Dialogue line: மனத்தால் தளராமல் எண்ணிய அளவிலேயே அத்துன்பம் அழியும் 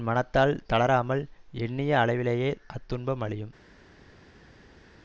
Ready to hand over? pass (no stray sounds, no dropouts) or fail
pass